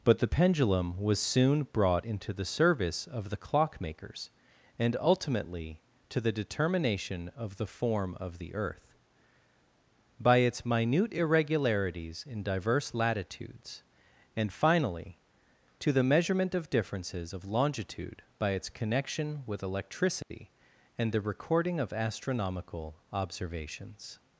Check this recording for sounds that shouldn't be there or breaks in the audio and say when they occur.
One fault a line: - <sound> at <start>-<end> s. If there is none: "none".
- dropout at 20.2-20.3 s